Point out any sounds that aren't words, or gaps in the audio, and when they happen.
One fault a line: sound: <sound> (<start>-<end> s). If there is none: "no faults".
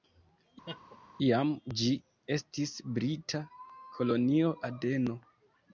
sound: laugh (0.7-1.0 s)